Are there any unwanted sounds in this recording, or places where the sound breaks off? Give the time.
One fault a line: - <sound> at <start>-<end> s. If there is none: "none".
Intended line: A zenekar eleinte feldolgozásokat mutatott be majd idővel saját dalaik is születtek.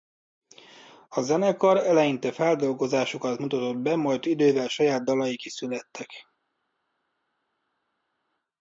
none